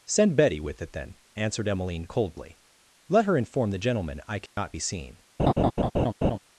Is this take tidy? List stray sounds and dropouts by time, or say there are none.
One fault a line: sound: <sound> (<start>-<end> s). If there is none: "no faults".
sound: dropout (4.5-4.6 s)
sound: laugh (5.4-6.4 s)